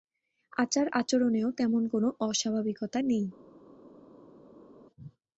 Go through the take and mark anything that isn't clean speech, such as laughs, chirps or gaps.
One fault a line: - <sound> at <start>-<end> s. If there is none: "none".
none